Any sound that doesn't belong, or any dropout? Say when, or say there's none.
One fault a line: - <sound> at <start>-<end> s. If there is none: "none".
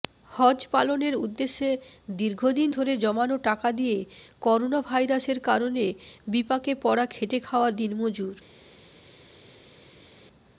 none